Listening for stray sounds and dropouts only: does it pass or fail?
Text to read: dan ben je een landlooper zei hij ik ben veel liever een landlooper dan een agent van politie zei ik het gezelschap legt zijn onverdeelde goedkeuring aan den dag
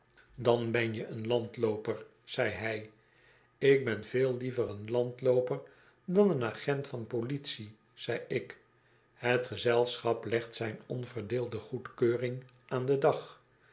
pass